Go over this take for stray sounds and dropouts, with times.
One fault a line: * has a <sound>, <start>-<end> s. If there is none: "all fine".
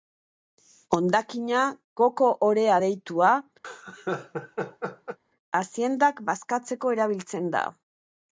* has a laugh, 3.6-5.2 s